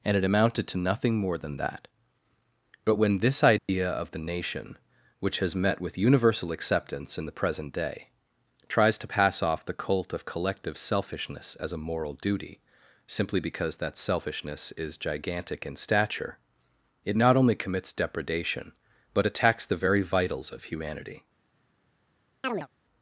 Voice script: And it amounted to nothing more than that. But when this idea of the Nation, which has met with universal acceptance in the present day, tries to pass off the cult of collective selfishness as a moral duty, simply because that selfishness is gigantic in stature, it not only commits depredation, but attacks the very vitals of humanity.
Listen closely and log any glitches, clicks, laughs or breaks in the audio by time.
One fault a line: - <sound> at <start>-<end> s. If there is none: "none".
- dropout at 3.6-3.7 s
- chirp at 22.4-22.7 s